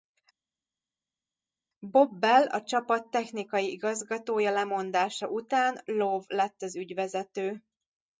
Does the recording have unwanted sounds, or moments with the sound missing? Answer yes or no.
no